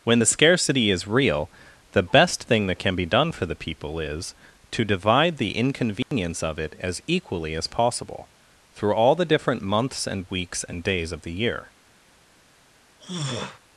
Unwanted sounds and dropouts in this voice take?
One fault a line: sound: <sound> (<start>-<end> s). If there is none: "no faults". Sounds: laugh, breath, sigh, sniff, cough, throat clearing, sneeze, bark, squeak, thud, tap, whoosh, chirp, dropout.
sound: dropout (6.0-6.1 s)
sound: throat clearing (13.0-13.6 s)